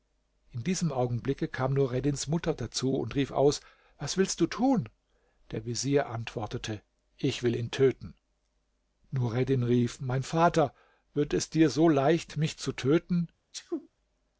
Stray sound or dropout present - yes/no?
yes